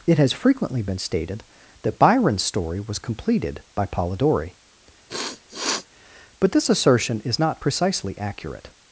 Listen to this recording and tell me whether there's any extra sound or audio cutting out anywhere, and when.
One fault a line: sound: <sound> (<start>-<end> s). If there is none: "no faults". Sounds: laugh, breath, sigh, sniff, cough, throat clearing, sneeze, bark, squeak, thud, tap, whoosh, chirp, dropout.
sound: sniff (5.1-5.9 s)